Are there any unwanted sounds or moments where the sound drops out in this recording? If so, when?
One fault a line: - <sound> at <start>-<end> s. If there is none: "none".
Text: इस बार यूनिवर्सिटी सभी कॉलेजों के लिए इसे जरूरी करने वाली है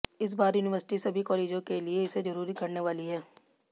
none